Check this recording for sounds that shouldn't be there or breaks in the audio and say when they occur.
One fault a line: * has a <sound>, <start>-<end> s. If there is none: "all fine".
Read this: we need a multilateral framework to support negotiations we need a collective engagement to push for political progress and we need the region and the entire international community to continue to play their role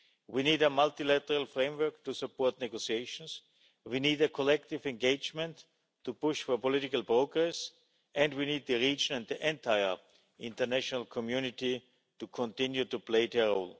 all fine